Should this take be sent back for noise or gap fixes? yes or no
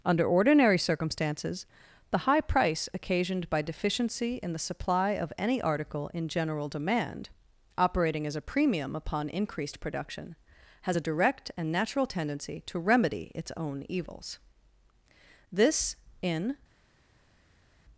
no